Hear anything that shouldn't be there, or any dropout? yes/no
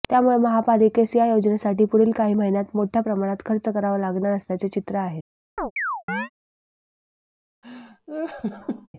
yes